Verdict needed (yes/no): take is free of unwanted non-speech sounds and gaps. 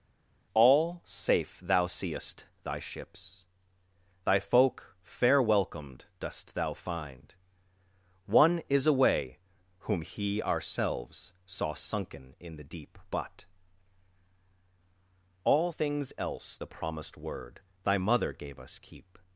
yes